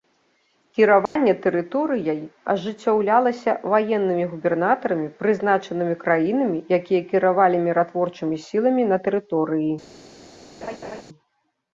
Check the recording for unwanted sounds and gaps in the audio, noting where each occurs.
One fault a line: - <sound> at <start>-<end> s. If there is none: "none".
- dropout at 1.1-1.2 s
- laugh at 10.6-11.0 s